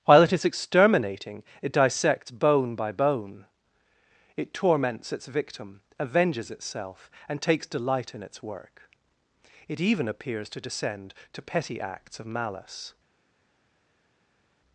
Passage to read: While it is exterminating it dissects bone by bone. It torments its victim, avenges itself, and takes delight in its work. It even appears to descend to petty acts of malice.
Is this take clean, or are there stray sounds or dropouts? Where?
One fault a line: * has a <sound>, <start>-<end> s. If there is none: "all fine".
all fine